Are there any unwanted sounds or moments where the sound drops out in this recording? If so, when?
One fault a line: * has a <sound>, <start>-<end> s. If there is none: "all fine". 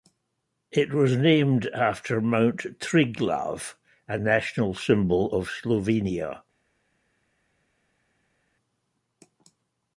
all fine